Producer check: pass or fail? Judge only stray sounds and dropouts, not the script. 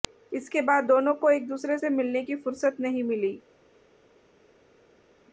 pass